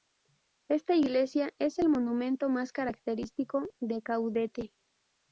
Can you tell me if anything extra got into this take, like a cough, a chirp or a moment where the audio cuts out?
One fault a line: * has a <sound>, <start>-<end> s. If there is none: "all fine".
all fine